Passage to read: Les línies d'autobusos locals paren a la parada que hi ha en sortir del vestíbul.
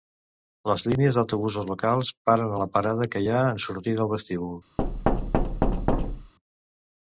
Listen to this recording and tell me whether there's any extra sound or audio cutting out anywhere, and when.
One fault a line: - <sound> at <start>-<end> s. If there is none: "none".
- thud at 4.8-6.3 s